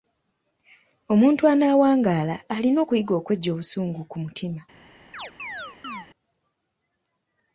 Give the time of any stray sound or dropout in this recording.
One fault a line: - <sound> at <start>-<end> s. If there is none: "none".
- chirp at 5.1-6.1 s